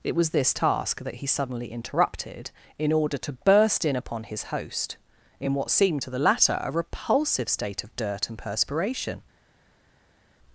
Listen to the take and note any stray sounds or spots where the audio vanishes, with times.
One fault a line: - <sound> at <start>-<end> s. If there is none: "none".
none